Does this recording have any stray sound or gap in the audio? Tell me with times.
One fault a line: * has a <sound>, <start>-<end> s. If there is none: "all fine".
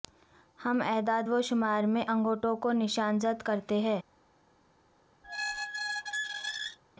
* has a squeak, 5.2-6.8 s